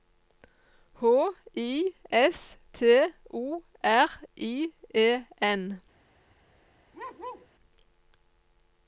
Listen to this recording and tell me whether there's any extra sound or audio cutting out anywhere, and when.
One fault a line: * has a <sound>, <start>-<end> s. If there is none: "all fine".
* has a bark, 6.9-7.5 s